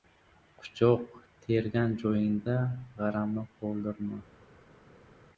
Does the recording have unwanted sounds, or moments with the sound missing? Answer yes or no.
no